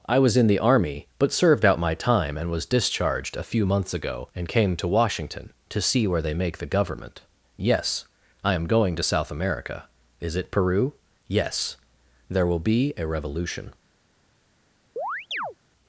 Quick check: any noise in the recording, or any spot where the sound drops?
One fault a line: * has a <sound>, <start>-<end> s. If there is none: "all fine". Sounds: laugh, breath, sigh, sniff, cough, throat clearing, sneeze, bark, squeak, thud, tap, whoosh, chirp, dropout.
* has a chirp, 15.0-15.6 s